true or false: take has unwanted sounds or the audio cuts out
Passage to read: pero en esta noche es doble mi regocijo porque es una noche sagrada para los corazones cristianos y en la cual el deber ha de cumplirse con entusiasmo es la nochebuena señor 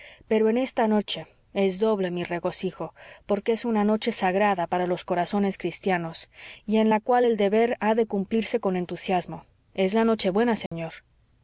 true